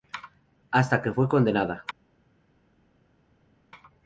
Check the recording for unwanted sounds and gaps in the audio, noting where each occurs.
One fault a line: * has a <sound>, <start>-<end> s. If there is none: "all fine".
all fine